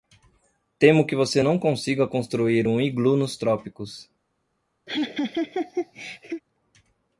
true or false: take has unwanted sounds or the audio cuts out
true